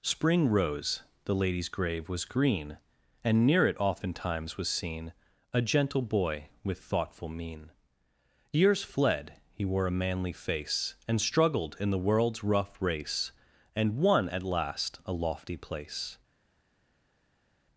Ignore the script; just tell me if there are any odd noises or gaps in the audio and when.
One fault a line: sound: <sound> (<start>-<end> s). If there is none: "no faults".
no faults